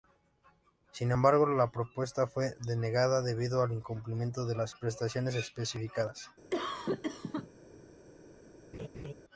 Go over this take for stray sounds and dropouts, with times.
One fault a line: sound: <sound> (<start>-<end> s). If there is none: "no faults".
sound: cough (6.5-7.5 s)
sound: laugh (8.7-9.1 s)